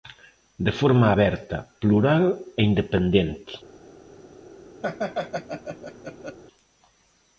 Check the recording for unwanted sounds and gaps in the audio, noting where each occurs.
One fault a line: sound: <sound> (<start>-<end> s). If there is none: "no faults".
sound: laugh (4.8-6.4 s)